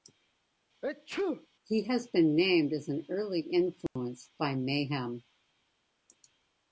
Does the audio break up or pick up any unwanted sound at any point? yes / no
yes